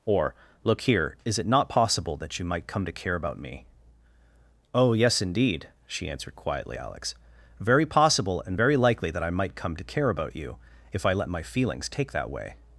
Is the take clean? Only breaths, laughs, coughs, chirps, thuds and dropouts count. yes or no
yes